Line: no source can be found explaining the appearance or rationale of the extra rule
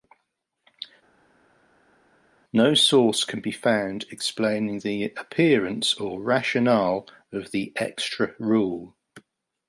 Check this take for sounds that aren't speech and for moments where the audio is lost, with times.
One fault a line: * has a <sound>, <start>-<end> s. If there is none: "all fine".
all fine